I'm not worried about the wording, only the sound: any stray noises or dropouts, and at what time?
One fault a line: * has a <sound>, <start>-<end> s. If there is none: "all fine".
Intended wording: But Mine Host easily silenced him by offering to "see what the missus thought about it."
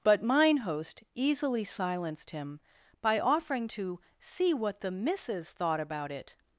all fine